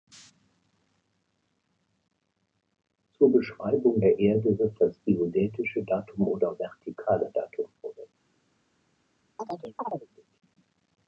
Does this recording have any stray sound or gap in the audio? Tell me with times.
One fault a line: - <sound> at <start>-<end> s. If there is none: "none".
- chirp at 9.4-10.1 s